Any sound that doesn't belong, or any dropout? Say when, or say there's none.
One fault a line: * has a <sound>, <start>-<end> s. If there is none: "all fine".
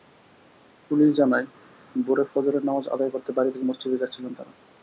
all fine